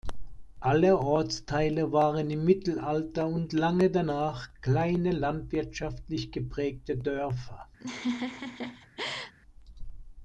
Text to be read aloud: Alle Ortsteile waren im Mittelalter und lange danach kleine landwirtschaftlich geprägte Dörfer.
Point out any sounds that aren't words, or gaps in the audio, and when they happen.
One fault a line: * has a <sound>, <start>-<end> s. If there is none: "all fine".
* has a laugh, 7.8-9.3 s